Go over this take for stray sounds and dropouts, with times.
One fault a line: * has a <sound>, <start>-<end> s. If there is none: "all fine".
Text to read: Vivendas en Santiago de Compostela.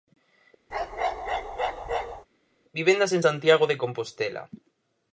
* has a bark, 0.7-2.3 s